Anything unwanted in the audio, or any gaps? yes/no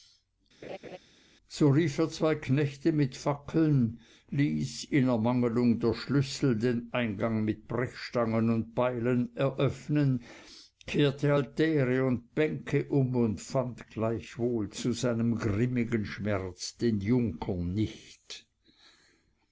yes